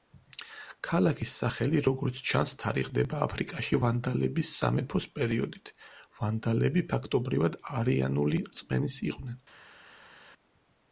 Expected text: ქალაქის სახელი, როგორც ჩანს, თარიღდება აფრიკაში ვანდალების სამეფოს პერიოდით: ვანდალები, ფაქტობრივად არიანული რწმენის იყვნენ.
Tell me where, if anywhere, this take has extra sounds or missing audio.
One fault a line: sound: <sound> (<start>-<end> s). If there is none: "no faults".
no faults